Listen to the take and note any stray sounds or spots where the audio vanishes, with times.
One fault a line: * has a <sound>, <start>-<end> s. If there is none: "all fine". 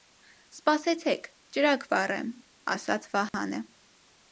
* has a dropout, 3.3-3.3 s